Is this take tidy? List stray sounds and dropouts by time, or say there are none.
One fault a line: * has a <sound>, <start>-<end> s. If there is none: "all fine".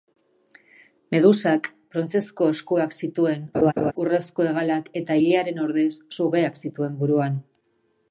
* has a laugh, 3.5-3.9 s